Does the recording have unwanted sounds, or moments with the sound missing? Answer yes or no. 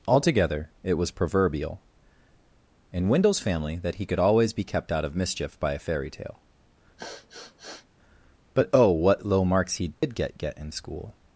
yes